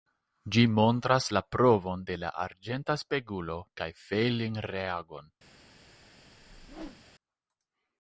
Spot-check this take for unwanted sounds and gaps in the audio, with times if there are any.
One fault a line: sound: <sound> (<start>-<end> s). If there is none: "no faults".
sound: whoosh (6.3-7.0 s)